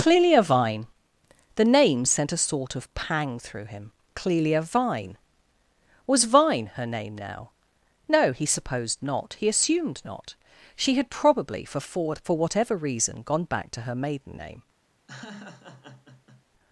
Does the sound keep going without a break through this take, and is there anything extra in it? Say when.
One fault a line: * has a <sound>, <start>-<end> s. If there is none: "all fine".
* has a laugh, 15.1-16.4 s